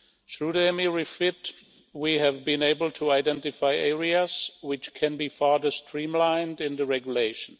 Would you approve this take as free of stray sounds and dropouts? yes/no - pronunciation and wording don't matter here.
yes